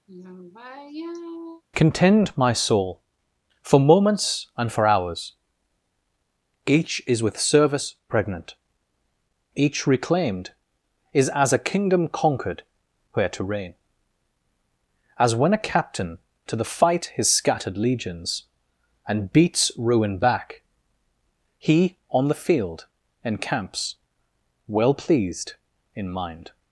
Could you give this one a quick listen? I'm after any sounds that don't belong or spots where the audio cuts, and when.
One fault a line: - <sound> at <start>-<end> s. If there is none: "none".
- sigh at 0.1-1.6 s